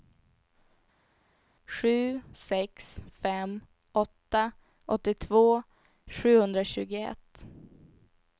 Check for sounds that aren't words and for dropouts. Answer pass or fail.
pass